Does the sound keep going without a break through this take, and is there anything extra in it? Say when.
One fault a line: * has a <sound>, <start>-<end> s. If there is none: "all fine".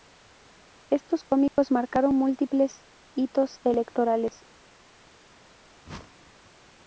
* has a dropout, 1.5-1.6 s
* has a whoosh, 5.8-6.5 s